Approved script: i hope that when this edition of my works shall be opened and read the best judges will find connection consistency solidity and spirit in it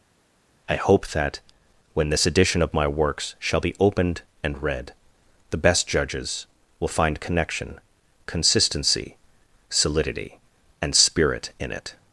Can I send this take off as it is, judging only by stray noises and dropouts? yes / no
yes